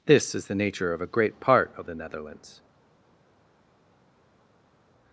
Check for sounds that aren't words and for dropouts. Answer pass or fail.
pass